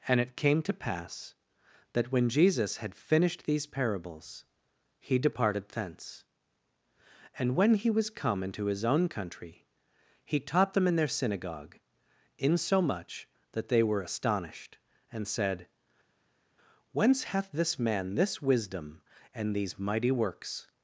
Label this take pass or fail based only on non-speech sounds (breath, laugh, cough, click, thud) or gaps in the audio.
pass